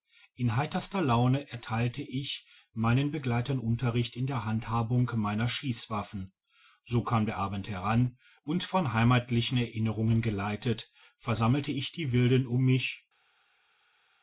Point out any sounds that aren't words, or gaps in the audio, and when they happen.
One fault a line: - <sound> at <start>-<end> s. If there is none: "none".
none